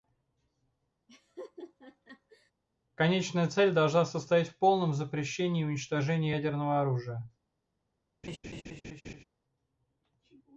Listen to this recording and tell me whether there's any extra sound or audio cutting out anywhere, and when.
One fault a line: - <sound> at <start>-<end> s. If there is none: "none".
- laugh at 1.1-2.5 s
- laugh at 8.2-9.2 s